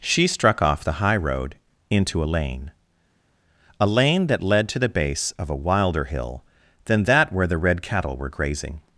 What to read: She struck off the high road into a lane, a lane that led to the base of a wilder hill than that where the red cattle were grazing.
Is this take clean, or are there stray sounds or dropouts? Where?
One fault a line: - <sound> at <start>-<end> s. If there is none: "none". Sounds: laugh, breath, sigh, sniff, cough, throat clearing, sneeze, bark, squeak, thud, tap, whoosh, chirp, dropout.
none